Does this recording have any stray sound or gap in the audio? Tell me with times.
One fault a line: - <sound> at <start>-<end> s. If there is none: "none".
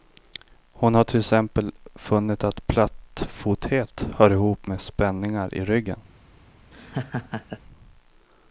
- laugh at 6.7-7.6 s